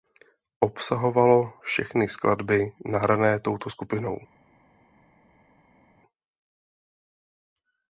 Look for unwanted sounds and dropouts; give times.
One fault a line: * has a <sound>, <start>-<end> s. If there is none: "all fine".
all fine